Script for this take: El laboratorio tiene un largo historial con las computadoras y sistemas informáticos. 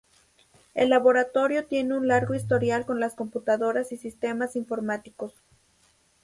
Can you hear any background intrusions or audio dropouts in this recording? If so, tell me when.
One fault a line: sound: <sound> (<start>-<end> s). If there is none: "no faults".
no faults